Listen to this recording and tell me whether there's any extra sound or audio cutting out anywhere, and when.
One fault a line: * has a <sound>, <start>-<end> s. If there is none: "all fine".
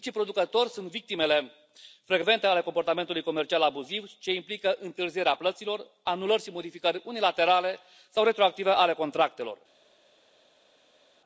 all fine